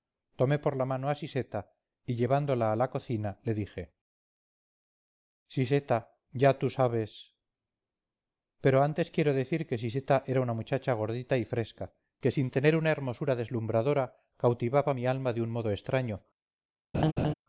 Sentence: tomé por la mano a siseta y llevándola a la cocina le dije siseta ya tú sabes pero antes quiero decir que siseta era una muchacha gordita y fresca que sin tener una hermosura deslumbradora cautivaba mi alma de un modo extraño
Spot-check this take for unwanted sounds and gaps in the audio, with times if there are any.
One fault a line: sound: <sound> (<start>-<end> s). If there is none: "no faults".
sound: laugh (16.9-17.3 s)